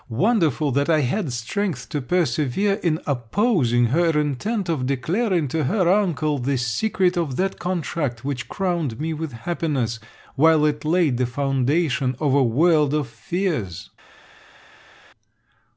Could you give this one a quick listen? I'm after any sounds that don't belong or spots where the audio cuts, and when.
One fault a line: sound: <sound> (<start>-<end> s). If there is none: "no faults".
no faults